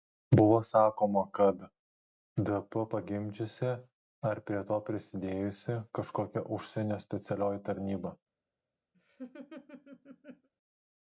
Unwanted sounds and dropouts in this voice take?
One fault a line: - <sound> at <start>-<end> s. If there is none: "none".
- laugh at 8.9-10.5 s